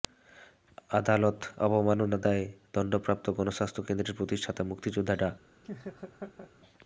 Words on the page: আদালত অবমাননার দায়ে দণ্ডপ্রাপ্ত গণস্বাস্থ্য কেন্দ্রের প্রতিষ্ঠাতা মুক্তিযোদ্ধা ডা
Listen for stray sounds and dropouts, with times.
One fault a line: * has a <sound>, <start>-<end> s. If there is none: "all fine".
* has a laugh, 5.6-6.5 s